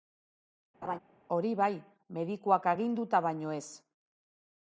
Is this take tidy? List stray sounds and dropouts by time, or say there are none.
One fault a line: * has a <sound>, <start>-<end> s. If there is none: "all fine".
* has a laugh, 0.8-1.0 s